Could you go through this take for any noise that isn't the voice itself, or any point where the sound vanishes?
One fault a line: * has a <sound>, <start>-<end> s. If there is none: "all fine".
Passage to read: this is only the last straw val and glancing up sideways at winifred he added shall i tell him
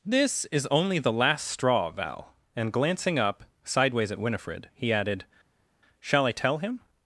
all fine